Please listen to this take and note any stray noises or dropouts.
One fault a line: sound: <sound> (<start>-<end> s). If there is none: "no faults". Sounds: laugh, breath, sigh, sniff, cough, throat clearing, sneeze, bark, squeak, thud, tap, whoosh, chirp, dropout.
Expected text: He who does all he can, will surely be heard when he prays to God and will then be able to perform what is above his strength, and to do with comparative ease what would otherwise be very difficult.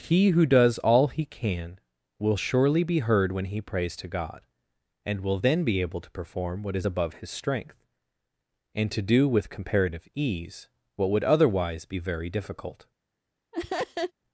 sound: laugh (13.5-14.1 s)